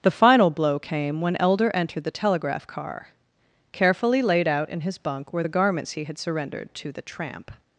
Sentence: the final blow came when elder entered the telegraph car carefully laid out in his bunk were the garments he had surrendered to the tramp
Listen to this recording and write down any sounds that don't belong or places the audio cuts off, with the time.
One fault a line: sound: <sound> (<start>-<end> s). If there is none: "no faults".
no faults